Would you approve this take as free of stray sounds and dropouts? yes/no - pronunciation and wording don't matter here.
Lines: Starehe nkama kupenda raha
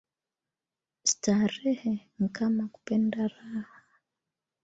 yes